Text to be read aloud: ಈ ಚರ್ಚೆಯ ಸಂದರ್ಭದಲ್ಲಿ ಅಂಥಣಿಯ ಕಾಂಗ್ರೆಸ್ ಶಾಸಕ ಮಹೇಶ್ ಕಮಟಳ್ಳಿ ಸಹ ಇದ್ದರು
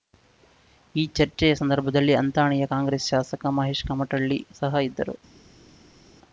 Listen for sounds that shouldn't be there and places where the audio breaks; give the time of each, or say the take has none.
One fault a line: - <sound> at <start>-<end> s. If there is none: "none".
none